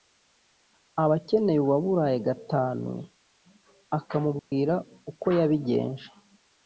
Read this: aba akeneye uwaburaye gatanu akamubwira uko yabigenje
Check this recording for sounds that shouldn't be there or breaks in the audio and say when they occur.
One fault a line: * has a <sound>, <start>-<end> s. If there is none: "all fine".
* has a dropout, 4.4-4.5 s